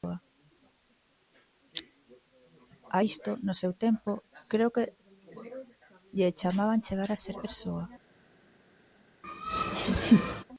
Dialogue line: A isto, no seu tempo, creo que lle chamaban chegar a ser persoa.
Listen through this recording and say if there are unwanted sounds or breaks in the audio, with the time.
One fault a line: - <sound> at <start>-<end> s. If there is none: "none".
- laugh at 9.2-10.4 s